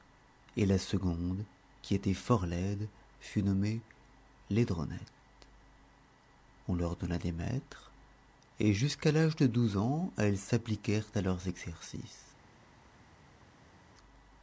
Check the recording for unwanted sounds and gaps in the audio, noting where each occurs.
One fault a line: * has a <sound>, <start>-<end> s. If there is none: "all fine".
all fine